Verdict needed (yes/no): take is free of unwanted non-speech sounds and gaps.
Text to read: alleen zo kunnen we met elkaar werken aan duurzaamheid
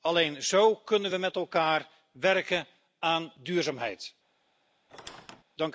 no